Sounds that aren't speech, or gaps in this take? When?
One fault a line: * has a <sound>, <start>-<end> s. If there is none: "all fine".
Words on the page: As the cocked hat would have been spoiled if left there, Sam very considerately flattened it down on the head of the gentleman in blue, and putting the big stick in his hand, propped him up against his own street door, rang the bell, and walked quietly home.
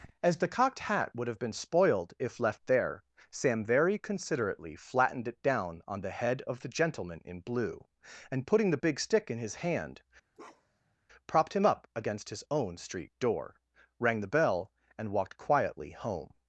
* has a bark, 10.3-10.9 s